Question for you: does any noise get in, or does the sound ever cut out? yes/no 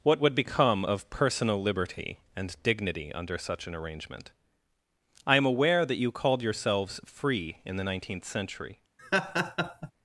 yes